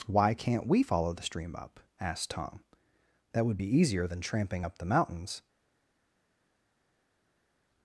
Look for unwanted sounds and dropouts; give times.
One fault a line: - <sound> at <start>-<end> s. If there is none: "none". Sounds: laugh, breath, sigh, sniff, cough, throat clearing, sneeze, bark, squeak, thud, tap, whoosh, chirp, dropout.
none